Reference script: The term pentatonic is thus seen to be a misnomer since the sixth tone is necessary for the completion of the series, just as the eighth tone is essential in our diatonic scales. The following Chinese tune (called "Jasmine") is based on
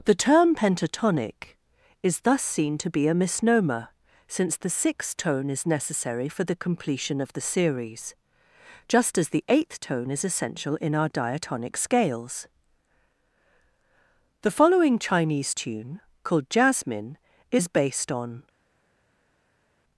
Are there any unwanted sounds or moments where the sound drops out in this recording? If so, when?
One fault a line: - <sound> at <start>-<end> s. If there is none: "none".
none